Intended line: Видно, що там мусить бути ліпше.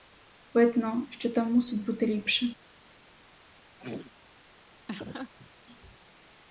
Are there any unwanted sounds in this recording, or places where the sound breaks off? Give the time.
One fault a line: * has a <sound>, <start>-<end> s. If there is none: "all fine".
* has a throat clearing, 3.8-4.1 s
* has a laugh, 4.9-5.5 s